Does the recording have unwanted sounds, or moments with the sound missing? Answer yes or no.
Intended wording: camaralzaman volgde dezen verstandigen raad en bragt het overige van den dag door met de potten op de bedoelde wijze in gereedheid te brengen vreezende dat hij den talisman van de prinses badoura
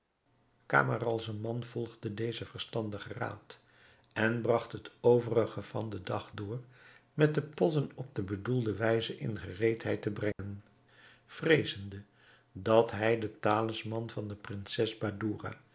yes